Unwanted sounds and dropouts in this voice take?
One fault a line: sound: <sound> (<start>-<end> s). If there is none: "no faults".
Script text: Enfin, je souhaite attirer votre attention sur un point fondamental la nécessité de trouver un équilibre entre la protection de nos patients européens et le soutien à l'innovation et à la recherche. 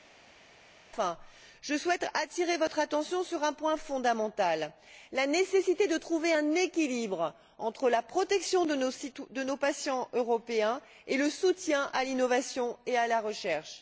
no faults